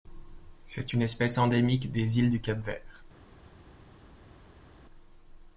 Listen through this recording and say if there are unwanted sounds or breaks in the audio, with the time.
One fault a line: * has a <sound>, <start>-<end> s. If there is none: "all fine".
all fine